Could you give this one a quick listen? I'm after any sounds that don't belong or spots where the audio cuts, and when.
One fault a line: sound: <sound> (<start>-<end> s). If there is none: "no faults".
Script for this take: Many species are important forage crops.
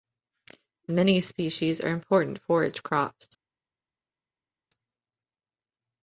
no faults